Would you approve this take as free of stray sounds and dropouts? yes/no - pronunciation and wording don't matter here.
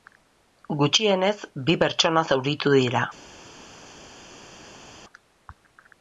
yes